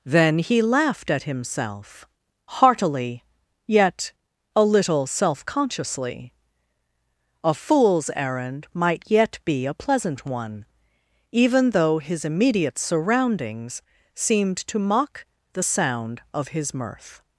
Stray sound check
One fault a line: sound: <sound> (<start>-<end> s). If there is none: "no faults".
no faults